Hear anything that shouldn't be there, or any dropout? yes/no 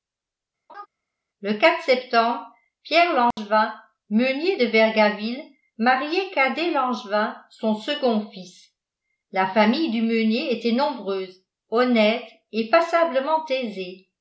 yes